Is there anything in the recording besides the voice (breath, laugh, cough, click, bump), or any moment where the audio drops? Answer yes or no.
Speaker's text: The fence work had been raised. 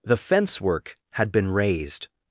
no